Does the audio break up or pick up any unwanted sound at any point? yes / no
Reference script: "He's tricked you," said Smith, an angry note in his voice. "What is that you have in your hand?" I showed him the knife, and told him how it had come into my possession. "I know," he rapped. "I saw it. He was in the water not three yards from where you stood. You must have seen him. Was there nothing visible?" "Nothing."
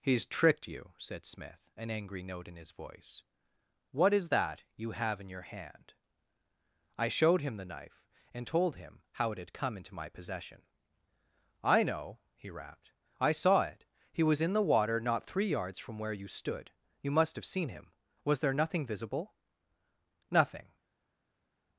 no